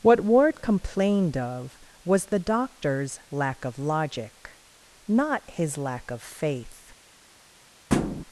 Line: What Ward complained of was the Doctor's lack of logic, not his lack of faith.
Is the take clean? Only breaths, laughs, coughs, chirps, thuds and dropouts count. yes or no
no